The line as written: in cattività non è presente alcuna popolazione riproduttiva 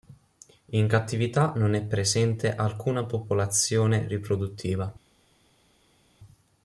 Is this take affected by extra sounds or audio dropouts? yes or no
no